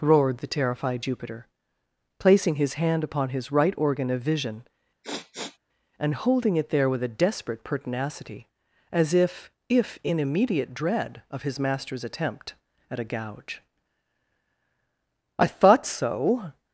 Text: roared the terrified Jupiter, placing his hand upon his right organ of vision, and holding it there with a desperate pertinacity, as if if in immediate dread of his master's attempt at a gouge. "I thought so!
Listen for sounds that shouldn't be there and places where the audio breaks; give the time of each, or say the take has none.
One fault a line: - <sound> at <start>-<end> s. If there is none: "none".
- sniff at 5.0-5.6 s